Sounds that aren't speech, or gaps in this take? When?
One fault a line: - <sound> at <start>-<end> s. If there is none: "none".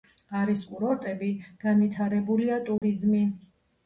- dropout at 2.8-2.8 s